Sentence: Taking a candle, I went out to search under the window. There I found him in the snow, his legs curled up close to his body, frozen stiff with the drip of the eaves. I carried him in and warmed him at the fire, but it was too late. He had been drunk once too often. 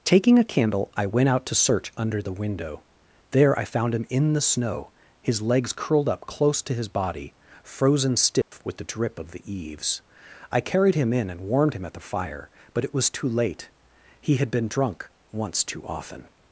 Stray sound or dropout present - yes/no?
yes